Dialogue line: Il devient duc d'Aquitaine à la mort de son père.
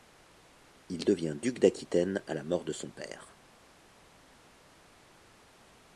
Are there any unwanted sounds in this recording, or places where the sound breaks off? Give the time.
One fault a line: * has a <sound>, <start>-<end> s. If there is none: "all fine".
all fine